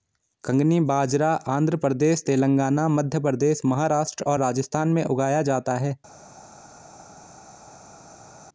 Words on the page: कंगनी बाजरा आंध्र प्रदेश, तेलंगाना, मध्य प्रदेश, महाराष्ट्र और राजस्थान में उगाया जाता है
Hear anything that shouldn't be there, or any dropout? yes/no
no